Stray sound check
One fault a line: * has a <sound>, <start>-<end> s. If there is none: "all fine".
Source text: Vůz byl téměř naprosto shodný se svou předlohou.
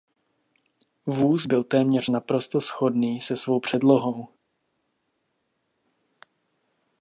all fine